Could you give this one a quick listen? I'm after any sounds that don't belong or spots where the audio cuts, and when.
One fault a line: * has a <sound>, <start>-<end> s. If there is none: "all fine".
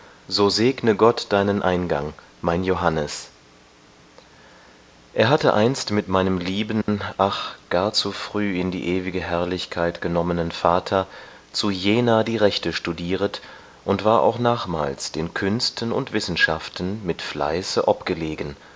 * has a dropout, 6.8-6.9 s